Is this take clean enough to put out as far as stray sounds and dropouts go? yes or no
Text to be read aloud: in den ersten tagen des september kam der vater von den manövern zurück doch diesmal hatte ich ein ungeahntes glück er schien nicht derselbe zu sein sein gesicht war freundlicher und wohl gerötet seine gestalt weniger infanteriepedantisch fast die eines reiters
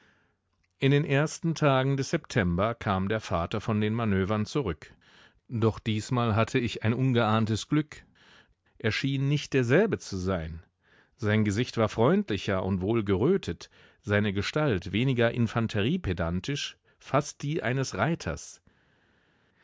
yes